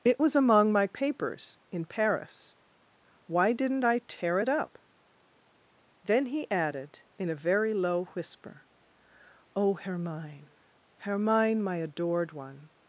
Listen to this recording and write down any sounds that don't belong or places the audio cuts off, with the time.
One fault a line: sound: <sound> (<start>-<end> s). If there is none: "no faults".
no faults